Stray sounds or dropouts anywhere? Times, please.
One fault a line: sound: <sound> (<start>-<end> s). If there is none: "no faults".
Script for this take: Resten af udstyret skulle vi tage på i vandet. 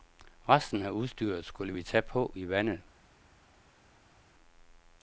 no faults